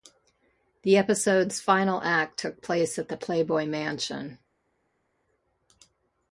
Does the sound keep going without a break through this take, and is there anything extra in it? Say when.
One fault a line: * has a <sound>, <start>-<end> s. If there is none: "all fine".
all fine